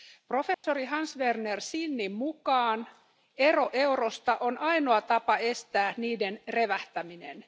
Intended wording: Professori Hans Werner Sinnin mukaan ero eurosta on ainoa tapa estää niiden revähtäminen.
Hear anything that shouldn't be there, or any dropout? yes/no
yes